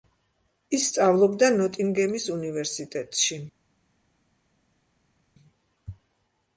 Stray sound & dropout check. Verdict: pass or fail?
pass